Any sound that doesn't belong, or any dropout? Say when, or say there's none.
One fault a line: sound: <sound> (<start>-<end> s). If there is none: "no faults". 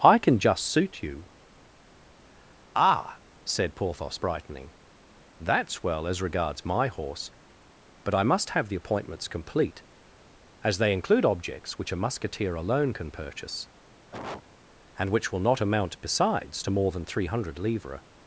sound: cough (14.1-14.4 s)